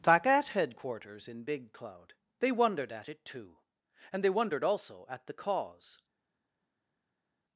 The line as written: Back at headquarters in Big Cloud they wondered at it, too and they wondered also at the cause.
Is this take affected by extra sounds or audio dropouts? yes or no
no